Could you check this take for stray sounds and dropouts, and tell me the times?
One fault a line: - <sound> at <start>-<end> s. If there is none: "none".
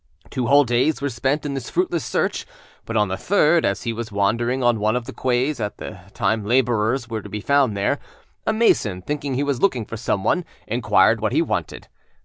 none